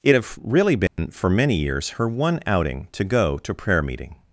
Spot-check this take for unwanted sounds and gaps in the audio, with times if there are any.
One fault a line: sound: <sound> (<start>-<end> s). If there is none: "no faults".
sound: dropout (0.9-1.0 s)